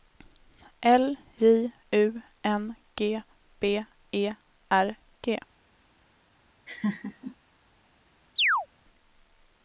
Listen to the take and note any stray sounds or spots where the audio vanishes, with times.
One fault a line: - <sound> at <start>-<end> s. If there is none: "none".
- laugh at 6.7-7.4 s
- chirp at 8.4-8.7 s